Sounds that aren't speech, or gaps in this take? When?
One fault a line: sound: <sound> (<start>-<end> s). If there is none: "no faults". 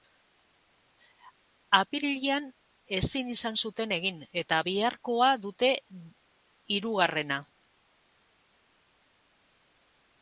no faults